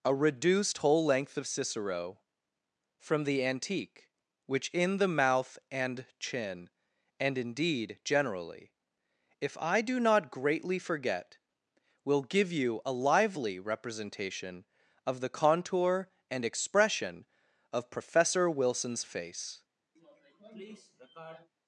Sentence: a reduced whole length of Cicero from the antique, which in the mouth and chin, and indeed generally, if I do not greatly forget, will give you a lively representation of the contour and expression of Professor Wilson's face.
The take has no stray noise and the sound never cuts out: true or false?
false